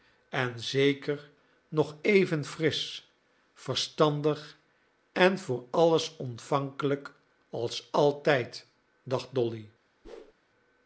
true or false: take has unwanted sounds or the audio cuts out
true